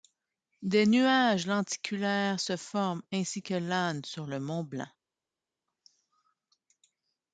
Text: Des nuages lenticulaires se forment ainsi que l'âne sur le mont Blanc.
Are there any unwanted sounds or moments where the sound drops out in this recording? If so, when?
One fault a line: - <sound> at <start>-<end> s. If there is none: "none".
none